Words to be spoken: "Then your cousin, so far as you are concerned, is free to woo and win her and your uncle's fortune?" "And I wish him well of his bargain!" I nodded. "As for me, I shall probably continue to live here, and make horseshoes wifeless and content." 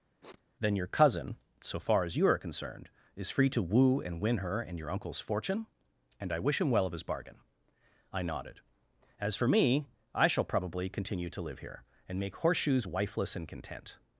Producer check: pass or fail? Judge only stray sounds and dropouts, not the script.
fail